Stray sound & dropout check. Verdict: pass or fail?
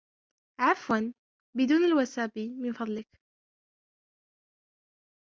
pass